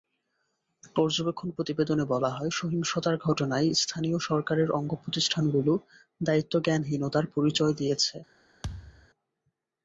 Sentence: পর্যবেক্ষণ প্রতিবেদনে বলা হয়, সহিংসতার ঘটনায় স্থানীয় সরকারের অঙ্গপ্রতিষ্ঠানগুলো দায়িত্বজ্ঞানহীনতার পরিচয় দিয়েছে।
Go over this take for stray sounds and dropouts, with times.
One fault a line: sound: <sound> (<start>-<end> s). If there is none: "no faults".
sound: thud (8.6-9.1 s)